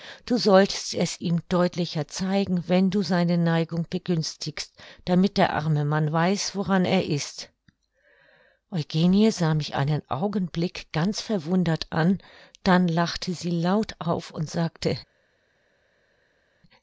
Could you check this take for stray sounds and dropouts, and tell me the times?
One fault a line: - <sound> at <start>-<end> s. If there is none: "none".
none